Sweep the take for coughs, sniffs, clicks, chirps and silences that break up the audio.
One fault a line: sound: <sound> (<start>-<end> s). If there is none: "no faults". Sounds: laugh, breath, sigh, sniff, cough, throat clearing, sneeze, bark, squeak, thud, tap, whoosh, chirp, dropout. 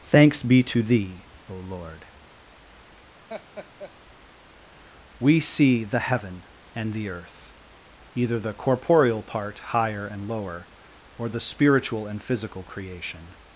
sound: laugh (3.3-3.9 s)